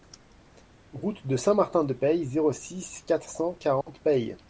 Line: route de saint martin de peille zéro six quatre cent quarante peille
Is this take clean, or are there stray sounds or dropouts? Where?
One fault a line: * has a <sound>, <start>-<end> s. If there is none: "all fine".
* has a dropout, 3.8-3.9 s